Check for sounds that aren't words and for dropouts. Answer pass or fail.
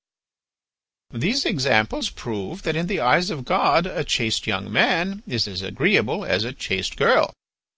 pass